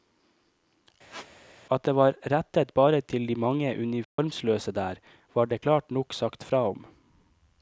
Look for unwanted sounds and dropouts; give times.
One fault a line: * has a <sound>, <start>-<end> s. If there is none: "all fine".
* has a squeak, 1.1-1.3 s
* has a dropout, 4.0-4.2 s